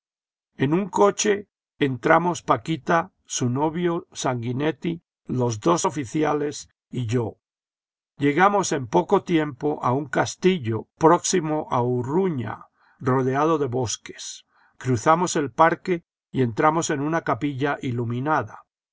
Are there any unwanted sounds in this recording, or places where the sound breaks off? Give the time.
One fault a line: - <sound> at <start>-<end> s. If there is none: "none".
none